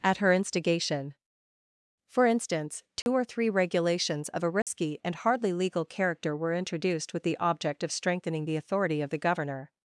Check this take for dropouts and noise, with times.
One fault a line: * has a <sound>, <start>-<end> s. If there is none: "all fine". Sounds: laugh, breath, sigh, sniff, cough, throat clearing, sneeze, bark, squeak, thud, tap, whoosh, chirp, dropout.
* has a dropout, 3.0-3.1 s
* has a dropout, 4.6-4.7 s